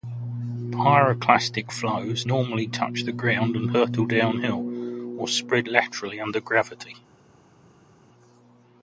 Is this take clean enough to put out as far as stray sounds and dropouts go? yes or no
yes